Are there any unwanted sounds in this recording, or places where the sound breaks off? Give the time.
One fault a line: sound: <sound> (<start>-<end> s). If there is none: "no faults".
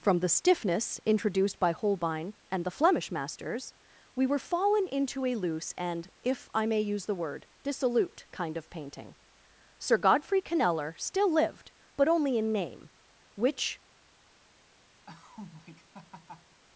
sound: laugh (15.1-16.6 s)